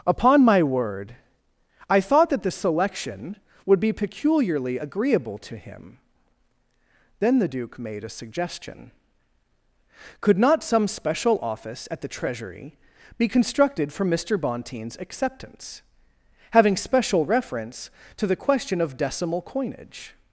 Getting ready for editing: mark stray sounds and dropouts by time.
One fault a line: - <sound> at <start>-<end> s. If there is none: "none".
none